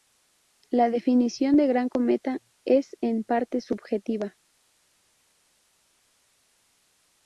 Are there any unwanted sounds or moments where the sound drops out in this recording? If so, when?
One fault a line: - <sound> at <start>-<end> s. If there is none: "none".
none